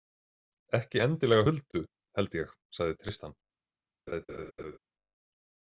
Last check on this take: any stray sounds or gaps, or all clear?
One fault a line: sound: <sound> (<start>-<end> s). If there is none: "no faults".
sound: laugh (4.1-4.8 s)